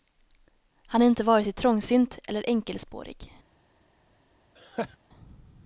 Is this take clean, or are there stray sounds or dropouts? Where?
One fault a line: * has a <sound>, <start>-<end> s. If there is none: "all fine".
* has a laugh, 4.6-5.0 s